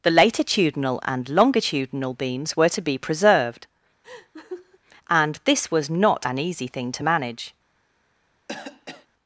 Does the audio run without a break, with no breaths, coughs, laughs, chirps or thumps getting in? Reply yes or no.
no